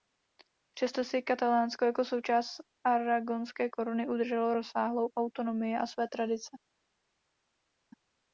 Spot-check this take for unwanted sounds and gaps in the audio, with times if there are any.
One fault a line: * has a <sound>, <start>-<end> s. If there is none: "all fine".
all fine